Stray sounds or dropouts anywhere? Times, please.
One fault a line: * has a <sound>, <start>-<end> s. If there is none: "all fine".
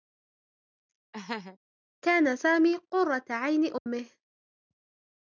* has a laugh, 1.1-1.6 s
* has a dropout, 3.8-3.9 s